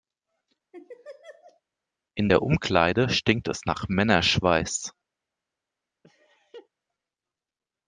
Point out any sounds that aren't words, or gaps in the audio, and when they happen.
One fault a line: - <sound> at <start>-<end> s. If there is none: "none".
- laugh at 0.7-1.6 s
- laugh at 6.0-6.7 s